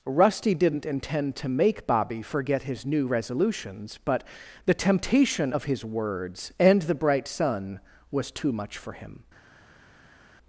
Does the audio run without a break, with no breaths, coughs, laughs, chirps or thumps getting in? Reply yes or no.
yes